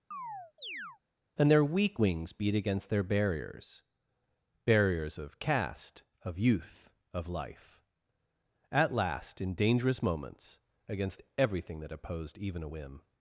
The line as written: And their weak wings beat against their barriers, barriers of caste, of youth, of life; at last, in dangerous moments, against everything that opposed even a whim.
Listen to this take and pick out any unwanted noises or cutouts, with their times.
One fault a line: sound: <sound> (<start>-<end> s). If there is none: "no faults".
sound: chirp (0.1-1.0 s)